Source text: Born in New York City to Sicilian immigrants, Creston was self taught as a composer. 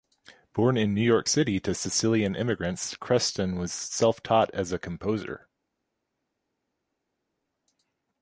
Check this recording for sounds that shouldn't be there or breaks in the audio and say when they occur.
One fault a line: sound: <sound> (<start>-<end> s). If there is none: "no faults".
no faults